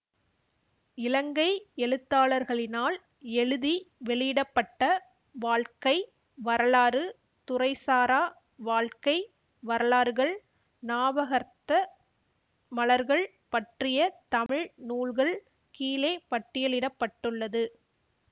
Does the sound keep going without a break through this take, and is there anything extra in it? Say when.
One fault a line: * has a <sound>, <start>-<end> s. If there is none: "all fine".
* has a dropout, 14.5-14.5 s